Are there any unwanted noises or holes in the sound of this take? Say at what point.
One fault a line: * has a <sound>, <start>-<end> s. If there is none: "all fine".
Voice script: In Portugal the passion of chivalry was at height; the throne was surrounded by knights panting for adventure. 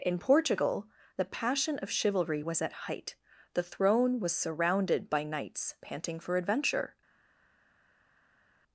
all fine